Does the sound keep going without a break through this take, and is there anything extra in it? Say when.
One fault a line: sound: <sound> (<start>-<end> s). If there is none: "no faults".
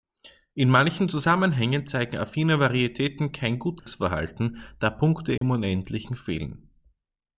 sound: dropout (3.8-3.9 s)
sound: dropout (5.4-5.4 s)